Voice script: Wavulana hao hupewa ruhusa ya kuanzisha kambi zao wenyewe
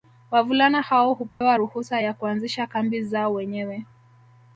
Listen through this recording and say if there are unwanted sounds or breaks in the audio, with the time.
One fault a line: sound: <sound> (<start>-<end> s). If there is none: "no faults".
sound: dropout (1.3-1.4 s)